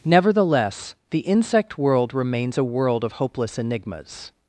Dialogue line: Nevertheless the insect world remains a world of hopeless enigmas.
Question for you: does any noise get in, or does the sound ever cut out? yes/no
no